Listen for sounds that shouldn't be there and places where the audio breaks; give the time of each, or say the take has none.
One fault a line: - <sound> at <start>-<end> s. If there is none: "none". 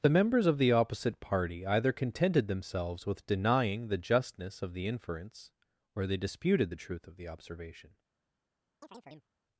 - chirp at 8.8-9.3 s